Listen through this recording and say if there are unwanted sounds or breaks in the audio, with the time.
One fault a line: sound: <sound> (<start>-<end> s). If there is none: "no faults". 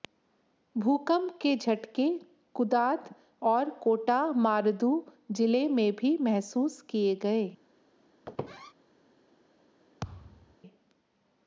sound: squeak (8.3-8.7 s)
sound: thud (10.0-10.6 s)